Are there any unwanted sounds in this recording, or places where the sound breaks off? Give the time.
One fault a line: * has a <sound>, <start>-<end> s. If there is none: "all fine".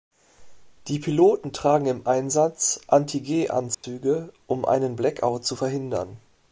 * has a dropout, 3.7-3.8 s